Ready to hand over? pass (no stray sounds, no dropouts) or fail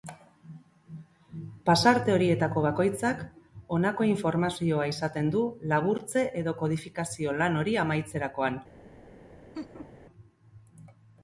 fail